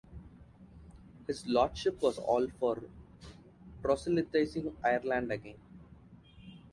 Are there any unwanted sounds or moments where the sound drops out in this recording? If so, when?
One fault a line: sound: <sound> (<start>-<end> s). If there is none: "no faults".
no faults